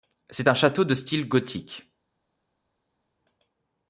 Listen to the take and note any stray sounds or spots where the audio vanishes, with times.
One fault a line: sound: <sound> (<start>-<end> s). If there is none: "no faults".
no faults